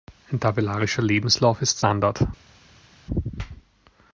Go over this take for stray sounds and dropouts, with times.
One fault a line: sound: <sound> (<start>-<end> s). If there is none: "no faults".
no faults